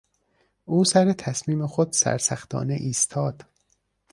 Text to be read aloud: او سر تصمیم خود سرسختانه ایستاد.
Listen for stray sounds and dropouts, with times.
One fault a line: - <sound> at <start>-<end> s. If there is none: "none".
none